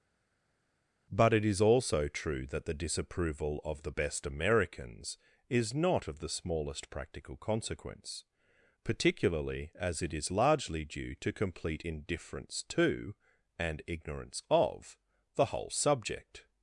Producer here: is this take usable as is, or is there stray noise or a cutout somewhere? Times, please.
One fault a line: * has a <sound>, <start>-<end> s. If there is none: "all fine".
all fine